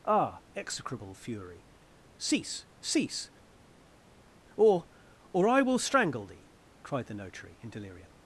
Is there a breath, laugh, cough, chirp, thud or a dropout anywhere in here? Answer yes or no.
no